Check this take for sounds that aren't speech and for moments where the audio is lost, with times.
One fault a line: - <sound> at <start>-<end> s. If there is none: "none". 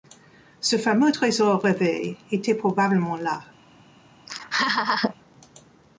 - laugh at 4.3-5.1 s